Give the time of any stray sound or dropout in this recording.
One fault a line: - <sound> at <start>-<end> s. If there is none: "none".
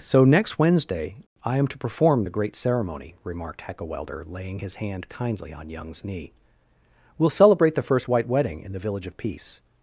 none